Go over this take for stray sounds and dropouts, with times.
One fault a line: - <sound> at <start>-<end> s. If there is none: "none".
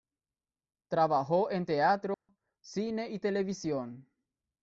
- dropout at 2.1-2.3 s